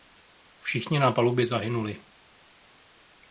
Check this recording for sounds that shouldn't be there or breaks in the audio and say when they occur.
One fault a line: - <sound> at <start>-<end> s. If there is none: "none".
none